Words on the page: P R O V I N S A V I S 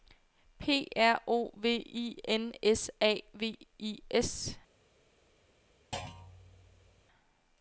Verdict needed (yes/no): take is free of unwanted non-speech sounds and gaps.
no